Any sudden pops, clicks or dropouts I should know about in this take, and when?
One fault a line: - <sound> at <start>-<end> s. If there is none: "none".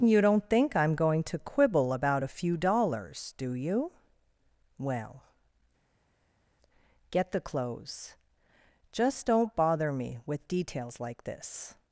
none